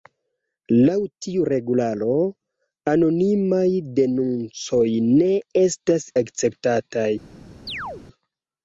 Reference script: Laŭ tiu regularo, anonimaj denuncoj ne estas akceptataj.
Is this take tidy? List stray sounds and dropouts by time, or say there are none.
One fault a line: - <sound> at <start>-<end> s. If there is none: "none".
- chirp at 7.7-8.0 s